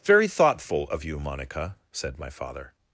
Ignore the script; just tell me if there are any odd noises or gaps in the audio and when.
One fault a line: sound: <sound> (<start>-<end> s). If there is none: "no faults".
no faults